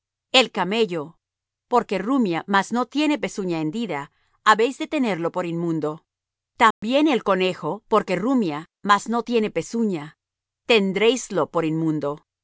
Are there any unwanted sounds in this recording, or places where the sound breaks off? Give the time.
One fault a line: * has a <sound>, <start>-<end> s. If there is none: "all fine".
* has a dropout, 6.7-6.8 s